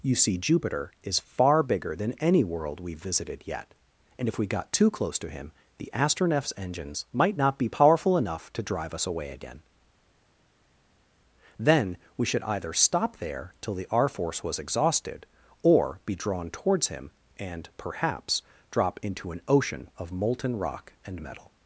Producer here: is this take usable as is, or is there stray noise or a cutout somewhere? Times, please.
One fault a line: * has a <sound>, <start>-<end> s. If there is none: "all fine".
all fine